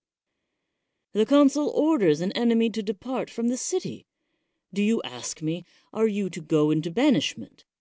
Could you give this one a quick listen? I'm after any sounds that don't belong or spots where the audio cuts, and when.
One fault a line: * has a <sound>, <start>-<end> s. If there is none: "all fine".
all fine